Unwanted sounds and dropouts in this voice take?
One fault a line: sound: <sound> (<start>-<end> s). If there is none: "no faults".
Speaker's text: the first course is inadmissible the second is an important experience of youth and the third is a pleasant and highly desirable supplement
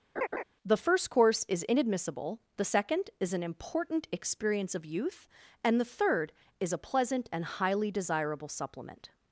sound: laugh (0.2-0.4 s)